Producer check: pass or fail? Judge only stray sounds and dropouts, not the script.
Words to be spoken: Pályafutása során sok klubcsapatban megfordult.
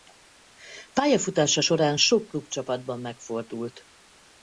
pass